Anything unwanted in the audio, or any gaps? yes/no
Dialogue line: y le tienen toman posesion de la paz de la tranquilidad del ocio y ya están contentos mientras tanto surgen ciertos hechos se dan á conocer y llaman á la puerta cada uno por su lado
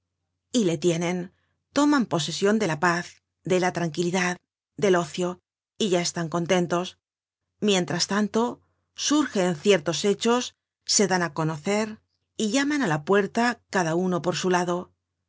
no